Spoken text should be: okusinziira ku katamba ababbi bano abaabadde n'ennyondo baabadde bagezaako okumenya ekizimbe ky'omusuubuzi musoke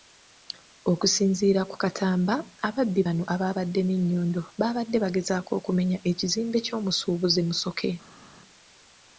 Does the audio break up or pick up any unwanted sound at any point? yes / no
no